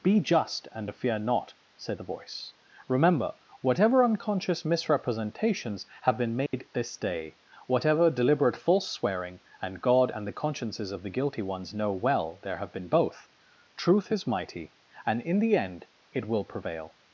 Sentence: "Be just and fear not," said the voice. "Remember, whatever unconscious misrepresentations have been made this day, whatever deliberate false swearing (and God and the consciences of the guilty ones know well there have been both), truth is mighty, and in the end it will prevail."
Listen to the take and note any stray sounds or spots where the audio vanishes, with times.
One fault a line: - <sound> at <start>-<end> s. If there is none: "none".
- dropout at 6.5-6.5 s